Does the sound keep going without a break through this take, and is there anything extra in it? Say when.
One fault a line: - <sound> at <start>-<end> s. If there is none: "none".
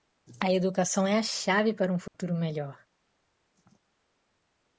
- dropout at 2.1-2.1 s